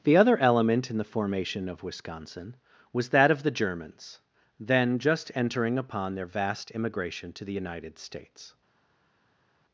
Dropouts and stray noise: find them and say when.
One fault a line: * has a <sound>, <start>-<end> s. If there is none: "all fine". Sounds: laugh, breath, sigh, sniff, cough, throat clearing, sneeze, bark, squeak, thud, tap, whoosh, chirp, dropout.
all fine